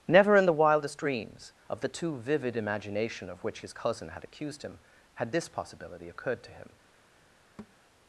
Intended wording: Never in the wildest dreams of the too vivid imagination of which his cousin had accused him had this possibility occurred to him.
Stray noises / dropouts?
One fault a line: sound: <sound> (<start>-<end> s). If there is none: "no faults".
sound: thud (7.6-7.8 s)